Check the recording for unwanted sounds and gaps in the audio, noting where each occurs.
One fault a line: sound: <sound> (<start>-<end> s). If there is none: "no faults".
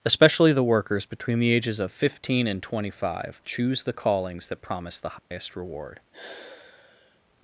sound: dropout (5.2-5.3 s)
sound: sigh (6.1-7.2 s)